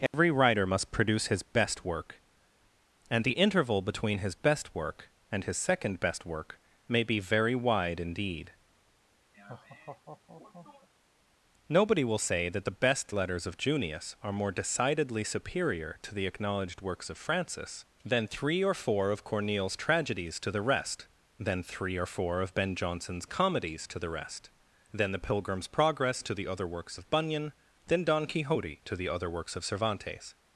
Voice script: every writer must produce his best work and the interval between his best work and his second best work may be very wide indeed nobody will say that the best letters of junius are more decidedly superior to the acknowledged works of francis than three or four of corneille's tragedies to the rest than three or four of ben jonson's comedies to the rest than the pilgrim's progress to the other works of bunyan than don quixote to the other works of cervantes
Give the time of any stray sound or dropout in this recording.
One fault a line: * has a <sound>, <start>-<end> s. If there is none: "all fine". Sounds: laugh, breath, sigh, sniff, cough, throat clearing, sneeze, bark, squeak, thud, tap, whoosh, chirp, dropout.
* has a dropout, 0.1-0.1 s
* has a laugh, 9.3-10.9 s